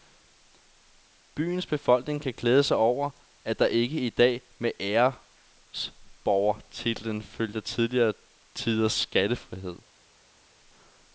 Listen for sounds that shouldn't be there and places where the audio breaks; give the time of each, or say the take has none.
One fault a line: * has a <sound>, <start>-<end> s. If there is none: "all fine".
all fine